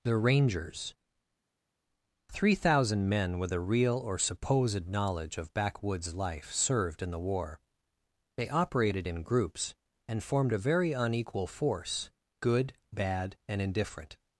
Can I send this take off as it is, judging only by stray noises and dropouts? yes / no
yes